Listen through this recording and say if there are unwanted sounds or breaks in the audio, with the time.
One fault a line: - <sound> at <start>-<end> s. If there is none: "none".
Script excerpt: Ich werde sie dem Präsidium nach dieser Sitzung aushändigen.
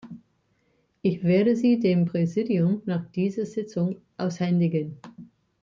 none